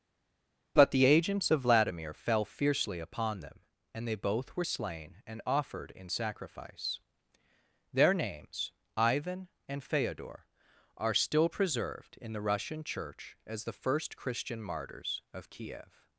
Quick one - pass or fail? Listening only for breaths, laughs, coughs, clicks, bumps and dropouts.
pass